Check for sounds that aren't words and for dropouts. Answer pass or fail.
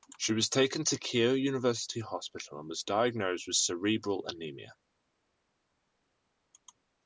pass